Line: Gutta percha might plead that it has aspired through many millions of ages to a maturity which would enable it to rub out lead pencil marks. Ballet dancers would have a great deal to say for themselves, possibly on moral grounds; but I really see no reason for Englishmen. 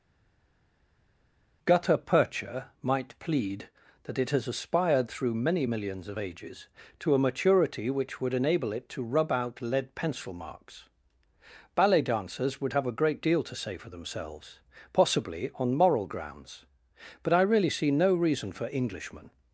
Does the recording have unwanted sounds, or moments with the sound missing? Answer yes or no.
no